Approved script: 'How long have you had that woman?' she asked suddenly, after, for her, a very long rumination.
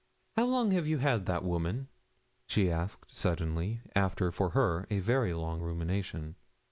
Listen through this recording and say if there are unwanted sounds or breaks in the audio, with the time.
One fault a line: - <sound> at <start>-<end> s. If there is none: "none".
none